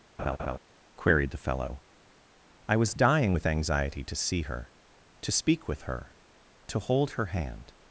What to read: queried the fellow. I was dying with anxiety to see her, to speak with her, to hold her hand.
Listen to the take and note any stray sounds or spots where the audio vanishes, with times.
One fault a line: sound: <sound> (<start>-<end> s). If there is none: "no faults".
sound: laugh (0.2-0.6 s)